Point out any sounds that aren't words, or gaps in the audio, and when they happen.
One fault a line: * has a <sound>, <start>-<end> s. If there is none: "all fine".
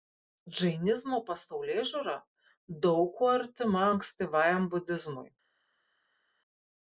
all fine